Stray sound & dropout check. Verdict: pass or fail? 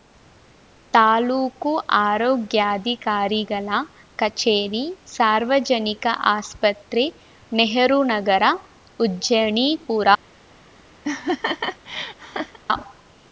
fail